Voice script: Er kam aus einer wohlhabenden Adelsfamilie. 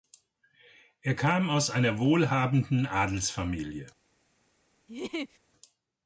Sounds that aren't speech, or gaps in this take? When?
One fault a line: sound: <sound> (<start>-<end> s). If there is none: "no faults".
sound: laugh (4.9-5.4 s)